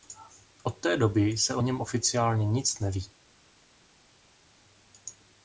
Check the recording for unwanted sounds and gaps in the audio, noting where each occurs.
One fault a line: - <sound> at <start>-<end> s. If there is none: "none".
none